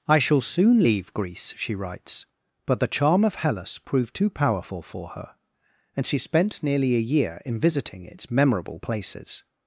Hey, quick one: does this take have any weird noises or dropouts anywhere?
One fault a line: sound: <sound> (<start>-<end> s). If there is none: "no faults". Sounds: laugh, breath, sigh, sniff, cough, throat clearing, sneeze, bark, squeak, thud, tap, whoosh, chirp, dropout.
no faults